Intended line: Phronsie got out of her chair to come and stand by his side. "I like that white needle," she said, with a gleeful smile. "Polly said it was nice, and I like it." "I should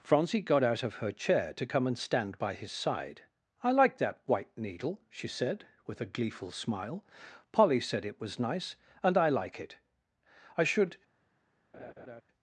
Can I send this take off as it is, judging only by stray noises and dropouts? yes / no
no